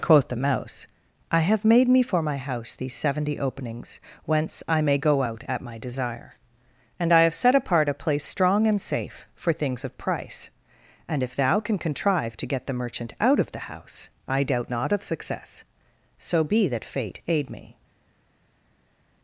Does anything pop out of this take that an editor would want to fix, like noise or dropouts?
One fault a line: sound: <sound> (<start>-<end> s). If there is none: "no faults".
no faults